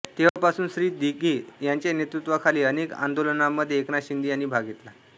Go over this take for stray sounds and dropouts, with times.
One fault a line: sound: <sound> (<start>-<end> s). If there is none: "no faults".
sound: dropout (0.3-0.4 s)